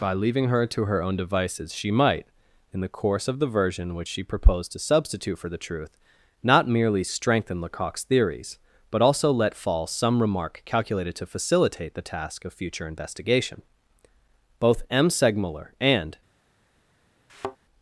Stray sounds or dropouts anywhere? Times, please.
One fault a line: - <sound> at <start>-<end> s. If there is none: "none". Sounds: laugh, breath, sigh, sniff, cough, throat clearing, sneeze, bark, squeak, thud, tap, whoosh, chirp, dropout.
- thud at 17.3-17.6 s